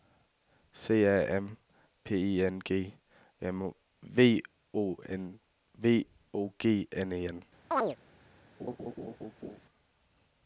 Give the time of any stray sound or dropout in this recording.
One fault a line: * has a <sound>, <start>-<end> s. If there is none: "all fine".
* has a chirp, 7.7-8.0 s
* has a laugh, 8.6-9.6 s